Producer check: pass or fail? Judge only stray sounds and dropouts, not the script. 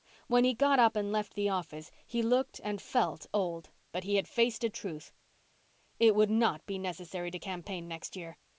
pass